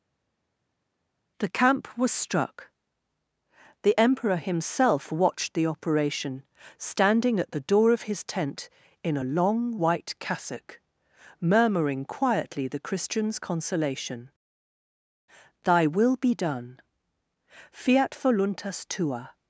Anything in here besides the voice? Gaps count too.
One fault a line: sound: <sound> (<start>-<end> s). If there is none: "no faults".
no faults